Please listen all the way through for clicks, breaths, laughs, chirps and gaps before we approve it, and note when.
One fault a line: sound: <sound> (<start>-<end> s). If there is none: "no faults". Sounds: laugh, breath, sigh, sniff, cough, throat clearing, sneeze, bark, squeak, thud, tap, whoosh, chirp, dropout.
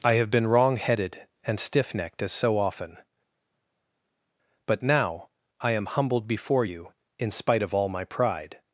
no faults